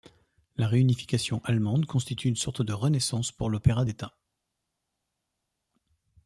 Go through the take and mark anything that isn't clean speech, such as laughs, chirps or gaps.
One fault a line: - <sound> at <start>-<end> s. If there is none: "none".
none